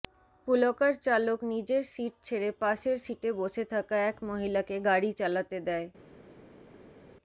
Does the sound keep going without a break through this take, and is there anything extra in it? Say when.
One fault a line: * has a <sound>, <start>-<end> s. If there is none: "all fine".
all fine